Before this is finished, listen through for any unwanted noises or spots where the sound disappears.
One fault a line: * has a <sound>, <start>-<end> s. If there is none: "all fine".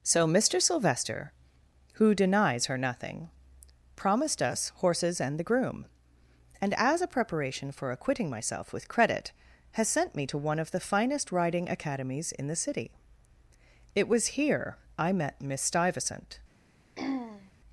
* has a throat clearing, 16.9-17.5 s